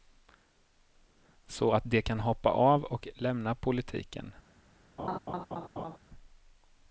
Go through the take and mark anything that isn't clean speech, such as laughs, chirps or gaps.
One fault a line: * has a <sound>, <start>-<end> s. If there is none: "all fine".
* has a laugh, 5.0-6.0 s